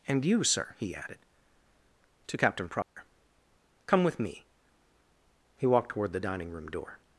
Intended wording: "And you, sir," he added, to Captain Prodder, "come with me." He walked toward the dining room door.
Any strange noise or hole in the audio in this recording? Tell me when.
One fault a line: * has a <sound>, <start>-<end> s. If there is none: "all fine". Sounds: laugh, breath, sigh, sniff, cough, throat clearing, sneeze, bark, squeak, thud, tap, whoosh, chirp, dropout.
* has a dropout, 2.8-3.0 s